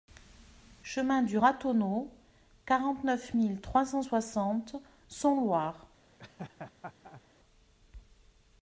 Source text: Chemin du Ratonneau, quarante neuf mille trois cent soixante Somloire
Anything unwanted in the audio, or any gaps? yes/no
yes